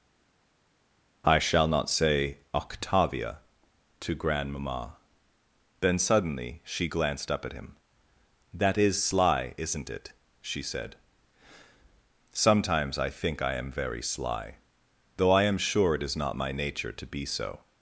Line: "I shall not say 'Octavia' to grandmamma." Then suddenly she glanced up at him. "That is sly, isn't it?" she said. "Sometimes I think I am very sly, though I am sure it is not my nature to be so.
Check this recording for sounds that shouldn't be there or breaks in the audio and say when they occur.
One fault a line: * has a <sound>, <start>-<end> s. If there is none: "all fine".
all fine